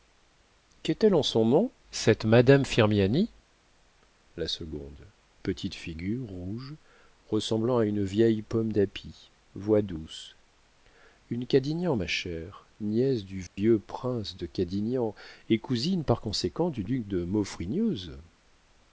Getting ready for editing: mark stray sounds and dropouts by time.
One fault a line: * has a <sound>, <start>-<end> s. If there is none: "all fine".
* has a dropout, 13.5-13.6 s